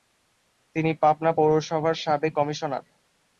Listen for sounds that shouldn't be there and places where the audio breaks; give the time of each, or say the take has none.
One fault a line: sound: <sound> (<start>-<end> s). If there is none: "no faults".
no faults